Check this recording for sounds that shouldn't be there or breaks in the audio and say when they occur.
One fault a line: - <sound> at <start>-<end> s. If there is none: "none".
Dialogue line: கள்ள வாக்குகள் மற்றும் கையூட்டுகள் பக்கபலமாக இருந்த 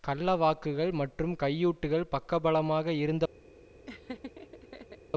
- laugh at 3.9-5.0 s